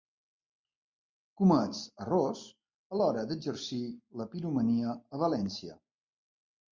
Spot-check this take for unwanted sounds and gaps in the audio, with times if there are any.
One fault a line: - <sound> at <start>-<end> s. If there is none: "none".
none